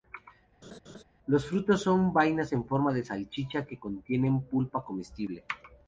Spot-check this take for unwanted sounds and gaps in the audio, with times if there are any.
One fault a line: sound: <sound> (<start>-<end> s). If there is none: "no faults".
sound: laugh (0.6-1.0 s)